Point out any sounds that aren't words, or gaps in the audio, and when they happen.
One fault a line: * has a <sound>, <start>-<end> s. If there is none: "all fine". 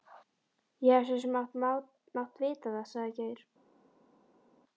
all fine